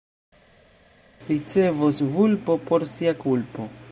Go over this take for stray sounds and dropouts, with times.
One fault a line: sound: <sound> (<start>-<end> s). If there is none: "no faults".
no faults